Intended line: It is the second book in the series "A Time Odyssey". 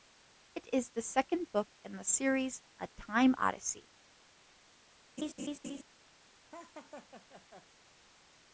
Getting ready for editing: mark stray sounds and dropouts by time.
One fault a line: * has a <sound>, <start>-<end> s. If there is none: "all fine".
* has a laugh, 5.2-5.8 s
* has a laugh, 6.5-7.7 s